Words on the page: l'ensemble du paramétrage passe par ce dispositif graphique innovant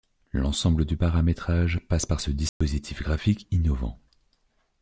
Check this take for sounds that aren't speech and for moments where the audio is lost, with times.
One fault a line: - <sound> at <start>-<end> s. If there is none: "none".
- dropout at 2.5-2.6 s